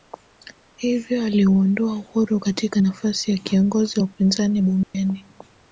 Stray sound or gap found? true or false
true